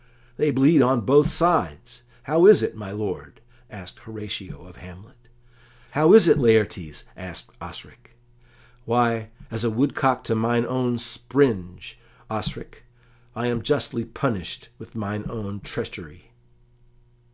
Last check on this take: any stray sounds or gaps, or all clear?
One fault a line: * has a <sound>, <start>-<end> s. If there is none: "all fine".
all fine